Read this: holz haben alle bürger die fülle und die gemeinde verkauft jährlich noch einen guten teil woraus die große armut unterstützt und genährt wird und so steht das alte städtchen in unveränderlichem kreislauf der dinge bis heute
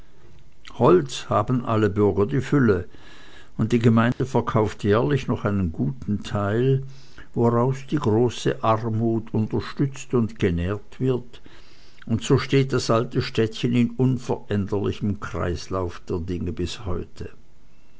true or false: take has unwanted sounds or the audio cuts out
true